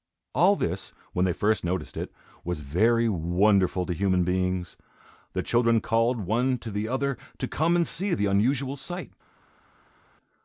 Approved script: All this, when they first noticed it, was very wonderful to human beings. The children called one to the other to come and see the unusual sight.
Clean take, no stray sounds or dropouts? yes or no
yes